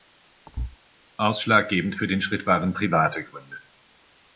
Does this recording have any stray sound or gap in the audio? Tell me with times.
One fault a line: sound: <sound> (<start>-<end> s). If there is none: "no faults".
sound: thud (0.5-0.8 s)